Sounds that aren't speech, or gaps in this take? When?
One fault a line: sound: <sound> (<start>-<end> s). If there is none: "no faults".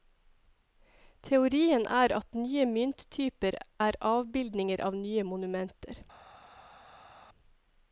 no faults